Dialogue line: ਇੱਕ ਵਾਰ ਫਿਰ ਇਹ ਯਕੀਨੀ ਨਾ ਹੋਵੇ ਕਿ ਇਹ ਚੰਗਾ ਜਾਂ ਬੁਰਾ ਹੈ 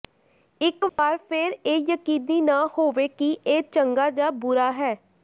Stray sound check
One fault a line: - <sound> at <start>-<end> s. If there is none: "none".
- dropout at 0.9-1.0 s